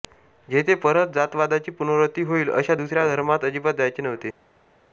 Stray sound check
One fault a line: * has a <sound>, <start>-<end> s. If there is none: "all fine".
all fine